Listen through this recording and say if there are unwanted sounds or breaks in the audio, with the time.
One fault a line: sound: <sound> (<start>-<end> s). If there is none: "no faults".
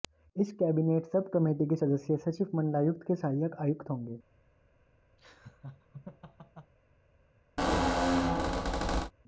sound: laugh (5.2-6.7 s)
sound: squeak (7.6-9.1 s)